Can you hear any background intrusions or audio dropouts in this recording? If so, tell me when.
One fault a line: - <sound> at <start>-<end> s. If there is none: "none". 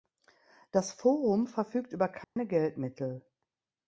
- dropout at 2.2-2.4 s